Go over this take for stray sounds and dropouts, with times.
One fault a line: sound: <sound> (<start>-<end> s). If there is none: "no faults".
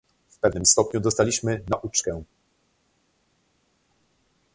no faults